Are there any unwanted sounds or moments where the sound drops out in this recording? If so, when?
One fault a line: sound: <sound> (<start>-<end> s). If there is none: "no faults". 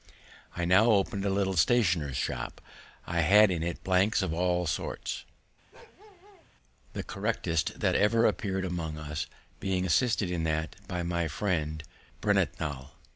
sound: bark (5.7-6.5 s)